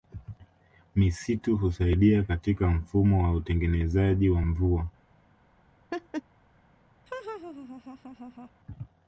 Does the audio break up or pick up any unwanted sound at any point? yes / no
yes